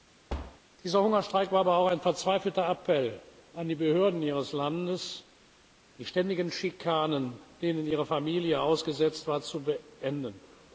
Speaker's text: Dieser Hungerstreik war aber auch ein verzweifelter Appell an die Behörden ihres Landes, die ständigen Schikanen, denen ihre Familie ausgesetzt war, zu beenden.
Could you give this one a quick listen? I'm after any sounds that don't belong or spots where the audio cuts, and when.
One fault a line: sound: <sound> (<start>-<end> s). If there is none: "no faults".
sound: thud (0.3-0.6 s)